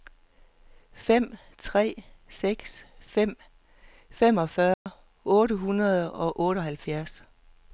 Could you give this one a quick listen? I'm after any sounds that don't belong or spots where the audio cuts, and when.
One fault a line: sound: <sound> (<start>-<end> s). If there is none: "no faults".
sound: dropout (4.7-4.9 s)